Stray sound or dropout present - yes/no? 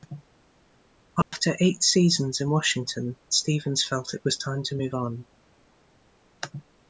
yes